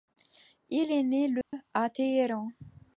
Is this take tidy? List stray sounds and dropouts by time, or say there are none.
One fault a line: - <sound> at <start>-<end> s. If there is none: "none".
- dropout at 1.4-1.5 s